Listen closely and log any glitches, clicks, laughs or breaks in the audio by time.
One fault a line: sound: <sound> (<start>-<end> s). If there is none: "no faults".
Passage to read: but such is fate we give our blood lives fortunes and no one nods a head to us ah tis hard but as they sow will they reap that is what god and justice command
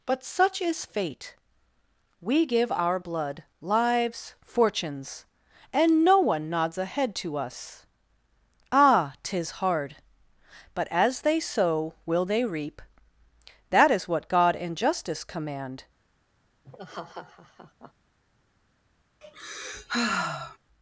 sound: laugh (16.6-17.9 s)
sound: sigh (19.2-20.6 s)